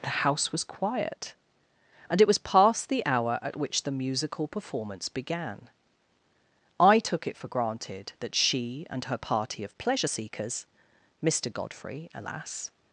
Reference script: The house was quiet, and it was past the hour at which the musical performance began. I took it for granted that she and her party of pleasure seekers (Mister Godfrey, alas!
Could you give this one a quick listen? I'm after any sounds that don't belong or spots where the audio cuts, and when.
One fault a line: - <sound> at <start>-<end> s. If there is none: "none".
none